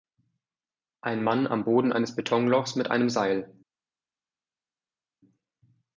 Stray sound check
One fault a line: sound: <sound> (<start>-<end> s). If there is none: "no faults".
no faults